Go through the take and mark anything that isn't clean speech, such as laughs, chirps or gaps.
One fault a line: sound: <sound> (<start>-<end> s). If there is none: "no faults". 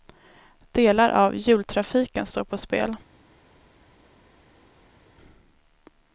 no faults